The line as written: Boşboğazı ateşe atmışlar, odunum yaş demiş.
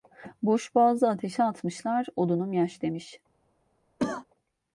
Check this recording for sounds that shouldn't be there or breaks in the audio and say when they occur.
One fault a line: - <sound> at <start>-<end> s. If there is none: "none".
- cough at 4.0-4.3 s